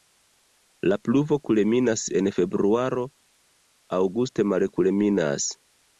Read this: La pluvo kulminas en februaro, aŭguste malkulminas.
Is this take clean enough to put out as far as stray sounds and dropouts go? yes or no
yes